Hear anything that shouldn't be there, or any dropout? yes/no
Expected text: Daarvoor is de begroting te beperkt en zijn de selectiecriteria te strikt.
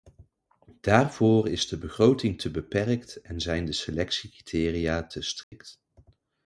yes